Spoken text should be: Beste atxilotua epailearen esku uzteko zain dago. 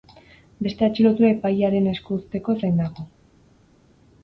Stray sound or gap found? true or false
false